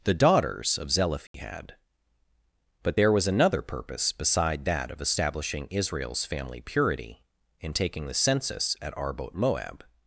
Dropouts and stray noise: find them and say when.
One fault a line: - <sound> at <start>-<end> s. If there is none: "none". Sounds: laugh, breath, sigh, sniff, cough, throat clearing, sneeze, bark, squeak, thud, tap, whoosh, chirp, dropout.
- dropout at 1.3-1.3 s